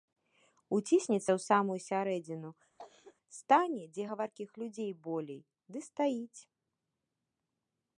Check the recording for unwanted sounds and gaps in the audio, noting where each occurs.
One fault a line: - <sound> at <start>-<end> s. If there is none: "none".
- cough at 2.8-3.2 s